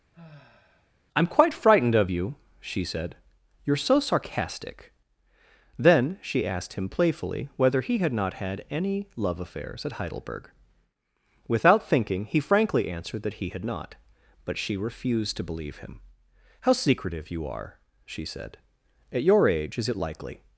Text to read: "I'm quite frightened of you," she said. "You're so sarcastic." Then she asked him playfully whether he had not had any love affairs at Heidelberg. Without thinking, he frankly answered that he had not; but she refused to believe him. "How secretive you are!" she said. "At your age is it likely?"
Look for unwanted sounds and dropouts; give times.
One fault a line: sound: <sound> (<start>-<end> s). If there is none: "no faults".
sound: sigh (0.1-0.9 s)